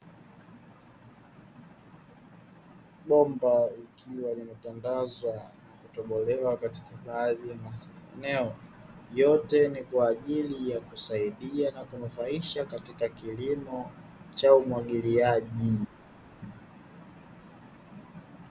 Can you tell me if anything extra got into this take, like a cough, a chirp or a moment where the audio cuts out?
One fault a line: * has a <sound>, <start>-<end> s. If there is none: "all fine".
all fine